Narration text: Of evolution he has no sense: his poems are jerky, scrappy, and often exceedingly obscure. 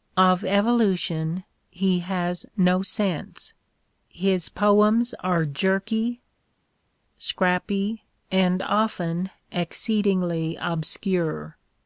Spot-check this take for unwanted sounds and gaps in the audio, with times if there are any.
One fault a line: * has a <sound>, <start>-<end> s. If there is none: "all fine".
all fine